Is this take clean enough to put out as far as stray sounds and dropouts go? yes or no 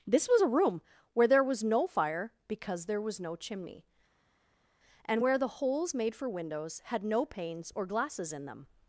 yes